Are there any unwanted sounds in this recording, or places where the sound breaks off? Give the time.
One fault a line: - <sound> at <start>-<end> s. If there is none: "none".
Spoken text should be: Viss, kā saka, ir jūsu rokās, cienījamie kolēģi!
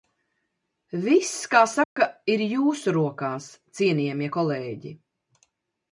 - dropout at 1.8-2.0 s